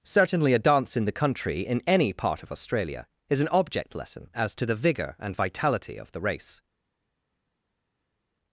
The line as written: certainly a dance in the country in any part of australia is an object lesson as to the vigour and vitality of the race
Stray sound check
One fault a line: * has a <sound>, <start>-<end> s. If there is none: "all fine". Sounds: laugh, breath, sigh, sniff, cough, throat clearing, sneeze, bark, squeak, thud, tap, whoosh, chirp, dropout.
all fine